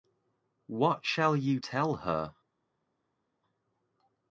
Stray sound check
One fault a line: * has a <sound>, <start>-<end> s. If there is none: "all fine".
all fine